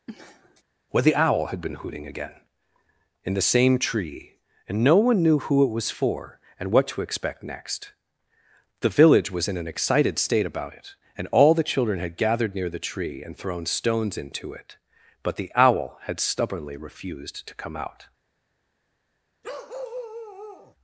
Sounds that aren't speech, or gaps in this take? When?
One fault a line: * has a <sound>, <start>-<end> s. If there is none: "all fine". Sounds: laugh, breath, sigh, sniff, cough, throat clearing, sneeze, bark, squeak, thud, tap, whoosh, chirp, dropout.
* has a sniff, 0.1-0.6 s
* has a bark, 19.4-20.8 s